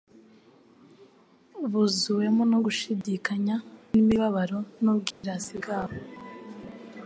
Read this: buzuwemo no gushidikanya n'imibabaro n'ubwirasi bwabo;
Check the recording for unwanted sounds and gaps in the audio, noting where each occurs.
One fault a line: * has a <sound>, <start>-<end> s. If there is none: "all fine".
* has a dropout, 3.0-3.0 s
* has a dropout, 5.1-5.2 s